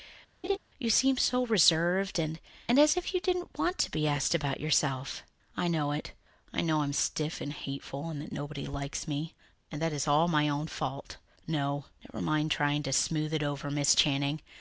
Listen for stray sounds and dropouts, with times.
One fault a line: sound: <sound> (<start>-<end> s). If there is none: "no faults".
sound: laugh (0.4-0.6 s)